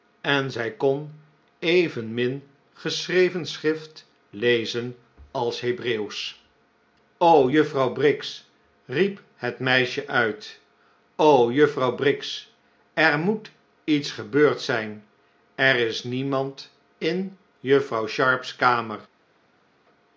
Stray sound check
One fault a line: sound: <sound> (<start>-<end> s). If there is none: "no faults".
no faults